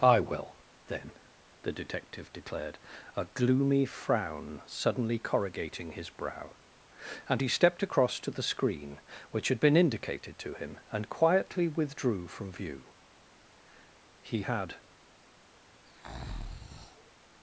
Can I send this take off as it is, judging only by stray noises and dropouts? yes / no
no